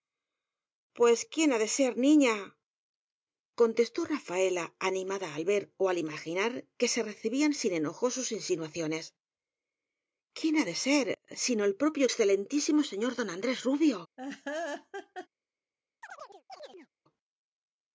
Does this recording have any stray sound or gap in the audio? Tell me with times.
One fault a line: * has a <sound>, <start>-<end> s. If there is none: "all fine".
* has a laugh, 14.2-15.3 s
* has a chirp, 16.0-16.9 s